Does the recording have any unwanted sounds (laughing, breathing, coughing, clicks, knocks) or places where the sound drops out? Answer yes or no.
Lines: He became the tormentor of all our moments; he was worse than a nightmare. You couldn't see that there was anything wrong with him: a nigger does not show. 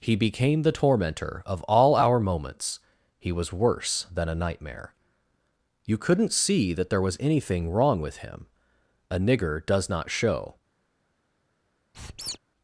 yes